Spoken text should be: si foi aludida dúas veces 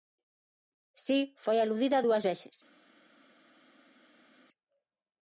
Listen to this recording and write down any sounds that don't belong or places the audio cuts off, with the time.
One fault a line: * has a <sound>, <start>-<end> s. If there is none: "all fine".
all fine